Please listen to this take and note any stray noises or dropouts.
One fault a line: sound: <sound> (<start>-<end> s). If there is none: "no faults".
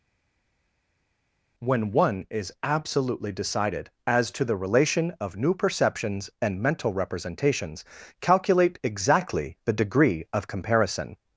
no faults